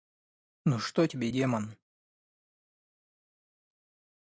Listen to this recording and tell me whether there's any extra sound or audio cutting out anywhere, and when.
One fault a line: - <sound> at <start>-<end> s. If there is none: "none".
none